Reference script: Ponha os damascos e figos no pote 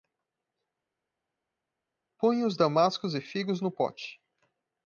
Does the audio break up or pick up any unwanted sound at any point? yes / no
no